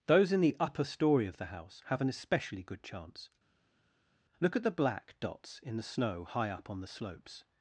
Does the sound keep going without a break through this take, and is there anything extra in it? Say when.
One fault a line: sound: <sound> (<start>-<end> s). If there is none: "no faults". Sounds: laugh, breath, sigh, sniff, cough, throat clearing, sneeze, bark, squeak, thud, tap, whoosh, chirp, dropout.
no faults